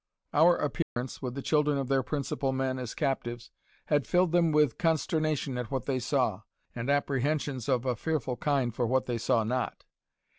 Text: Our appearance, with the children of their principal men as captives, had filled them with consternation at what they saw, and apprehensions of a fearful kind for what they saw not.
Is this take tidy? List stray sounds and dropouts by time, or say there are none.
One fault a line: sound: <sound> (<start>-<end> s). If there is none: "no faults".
sound: dropout (0.8-1.0 s)